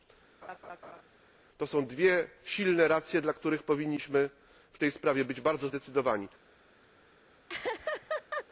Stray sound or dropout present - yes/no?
yes